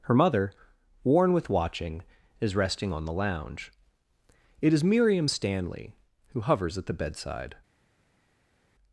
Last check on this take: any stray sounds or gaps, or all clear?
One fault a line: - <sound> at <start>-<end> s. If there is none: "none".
none